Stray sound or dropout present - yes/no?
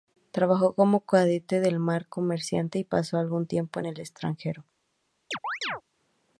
yes